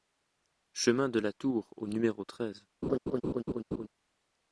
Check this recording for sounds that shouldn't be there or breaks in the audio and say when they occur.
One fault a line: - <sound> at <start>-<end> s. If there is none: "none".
- laugh at 2.8-3.9 s